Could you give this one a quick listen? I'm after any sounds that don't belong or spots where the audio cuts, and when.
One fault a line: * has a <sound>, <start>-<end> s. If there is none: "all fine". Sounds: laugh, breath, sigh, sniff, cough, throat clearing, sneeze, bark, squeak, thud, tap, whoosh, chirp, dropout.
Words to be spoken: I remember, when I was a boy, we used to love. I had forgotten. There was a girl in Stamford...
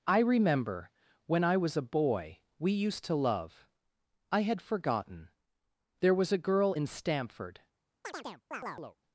* has a chirp, 8.0-9.0 s